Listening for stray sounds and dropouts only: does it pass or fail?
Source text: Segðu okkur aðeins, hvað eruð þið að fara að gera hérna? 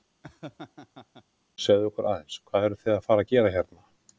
fail